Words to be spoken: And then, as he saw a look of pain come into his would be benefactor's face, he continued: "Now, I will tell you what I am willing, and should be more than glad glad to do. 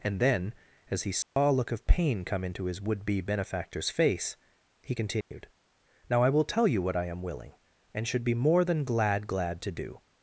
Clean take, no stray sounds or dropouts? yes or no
no